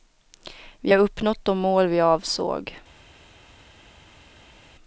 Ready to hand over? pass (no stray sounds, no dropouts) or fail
pass